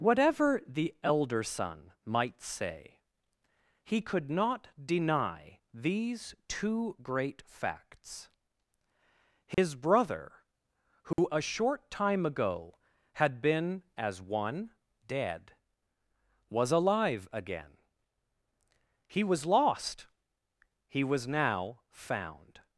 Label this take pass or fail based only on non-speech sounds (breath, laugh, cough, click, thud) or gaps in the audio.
fail